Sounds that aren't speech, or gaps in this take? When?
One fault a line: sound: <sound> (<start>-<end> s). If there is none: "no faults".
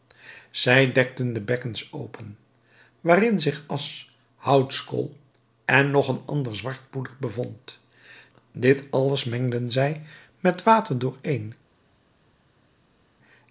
no faults